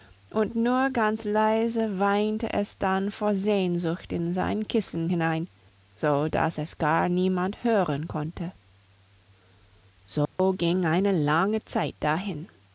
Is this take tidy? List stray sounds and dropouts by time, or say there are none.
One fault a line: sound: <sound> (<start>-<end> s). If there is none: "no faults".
sound: dropout (10.3-10.4 s)